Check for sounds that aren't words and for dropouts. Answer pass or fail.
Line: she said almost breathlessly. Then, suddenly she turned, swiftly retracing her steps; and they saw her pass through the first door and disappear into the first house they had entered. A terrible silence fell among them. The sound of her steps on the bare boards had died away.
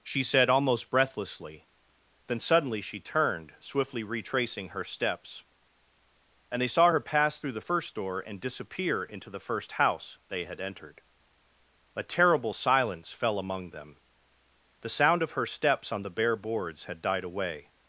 pass